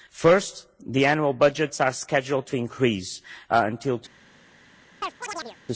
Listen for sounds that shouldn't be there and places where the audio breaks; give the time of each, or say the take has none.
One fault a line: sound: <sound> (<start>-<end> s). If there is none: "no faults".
sound: chirp (5.0-5.6 s)